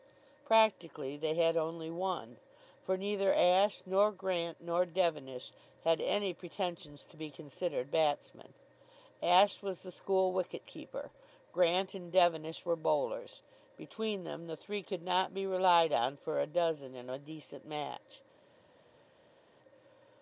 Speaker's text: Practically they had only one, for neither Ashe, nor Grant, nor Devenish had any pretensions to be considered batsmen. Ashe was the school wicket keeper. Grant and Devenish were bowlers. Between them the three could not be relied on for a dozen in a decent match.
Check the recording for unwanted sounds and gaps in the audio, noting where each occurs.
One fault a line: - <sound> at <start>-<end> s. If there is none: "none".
none